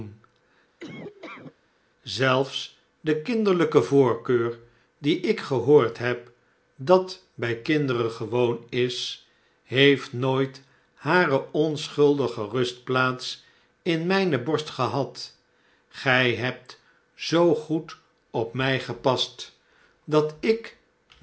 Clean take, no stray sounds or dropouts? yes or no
no